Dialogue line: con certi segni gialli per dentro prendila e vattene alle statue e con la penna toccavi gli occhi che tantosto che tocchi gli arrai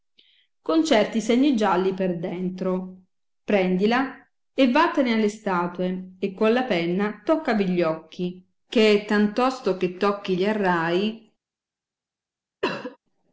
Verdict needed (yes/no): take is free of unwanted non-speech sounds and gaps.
no